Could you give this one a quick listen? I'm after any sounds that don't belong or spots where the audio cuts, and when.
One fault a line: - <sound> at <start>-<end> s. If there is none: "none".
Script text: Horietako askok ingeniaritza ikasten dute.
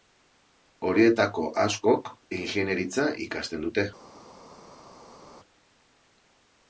none